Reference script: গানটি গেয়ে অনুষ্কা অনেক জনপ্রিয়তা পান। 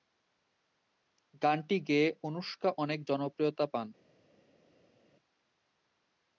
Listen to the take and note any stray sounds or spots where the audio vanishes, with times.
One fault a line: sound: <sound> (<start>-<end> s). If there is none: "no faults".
no faults